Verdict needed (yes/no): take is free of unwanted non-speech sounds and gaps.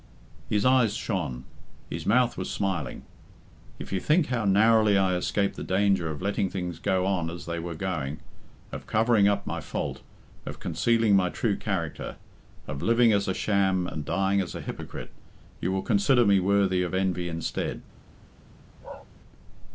no